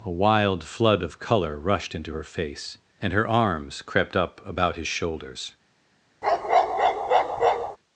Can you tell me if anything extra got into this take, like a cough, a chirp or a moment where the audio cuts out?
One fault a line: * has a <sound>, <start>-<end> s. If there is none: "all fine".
* has a bark, 6.2-7.8 s